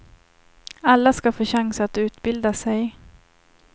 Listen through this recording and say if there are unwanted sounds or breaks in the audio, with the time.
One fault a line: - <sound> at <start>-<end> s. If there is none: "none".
none